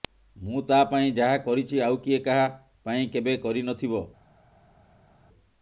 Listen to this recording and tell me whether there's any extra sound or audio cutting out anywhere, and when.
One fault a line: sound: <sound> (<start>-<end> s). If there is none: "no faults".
no faults